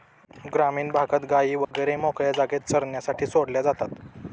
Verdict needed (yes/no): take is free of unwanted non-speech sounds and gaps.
no